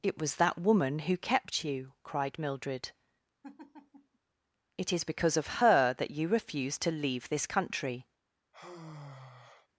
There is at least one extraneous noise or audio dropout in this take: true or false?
true